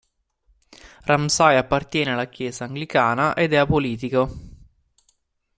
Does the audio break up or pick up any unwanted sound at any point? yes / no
no